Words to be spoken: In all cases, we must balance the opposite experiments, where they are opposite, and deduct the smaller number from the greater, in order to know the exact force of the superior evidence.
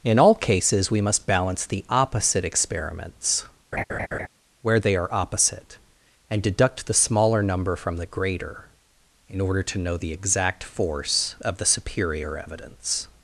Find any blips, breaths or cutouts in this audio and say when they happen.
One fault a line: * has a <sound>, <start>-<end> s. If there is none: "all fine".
* has a laugh, 3.7-4.3 s